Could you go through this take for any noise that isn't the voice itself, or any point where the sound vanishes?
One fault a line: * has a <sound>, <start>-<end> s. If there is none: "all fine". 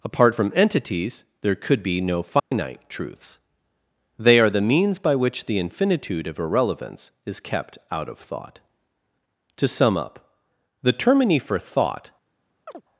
* has a dropout, 2.4-2.5 s
* has a chirp, 12.7-12.8 s